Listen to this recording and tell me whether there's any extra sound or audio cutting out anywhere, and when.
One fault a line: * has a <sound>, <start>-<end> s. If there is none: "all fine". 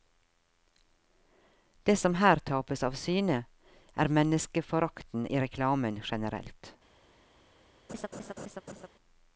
* has a laugh, 7.9-8.9 s